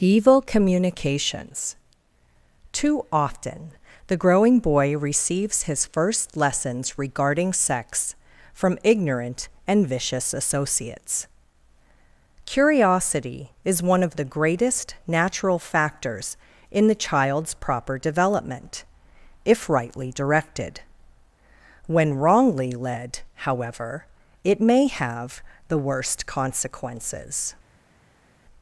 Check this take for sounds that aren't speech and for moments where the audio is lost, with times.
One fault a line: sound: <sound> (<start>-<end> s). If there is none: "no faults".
no faults